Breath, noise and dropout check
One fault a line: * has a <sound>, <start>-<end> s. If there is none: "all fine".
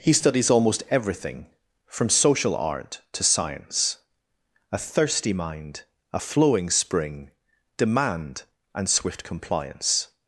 all fine